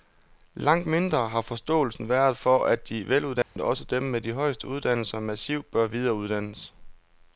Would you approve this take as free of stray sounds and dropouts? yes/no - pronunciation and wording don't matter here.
no